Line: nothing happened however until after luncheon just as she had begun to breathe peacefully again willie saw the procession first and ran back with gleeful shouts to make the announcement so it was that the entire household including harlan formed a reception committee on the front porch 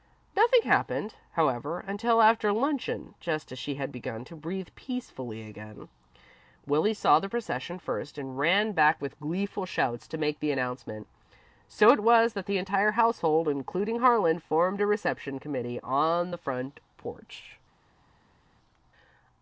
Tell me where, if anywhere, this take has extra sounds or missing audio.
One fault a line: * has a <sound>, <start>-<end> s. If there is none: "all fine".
all fine